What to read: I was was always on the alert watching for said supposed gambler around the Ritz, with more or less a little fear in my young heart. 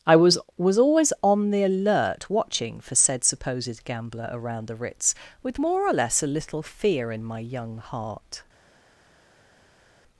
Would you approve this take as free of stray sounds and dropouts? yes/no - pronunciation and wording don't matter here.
yes